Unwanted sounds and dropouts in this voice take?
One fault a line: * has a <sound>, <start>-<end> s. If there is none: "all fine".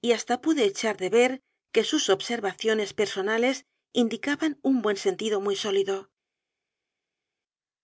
all fine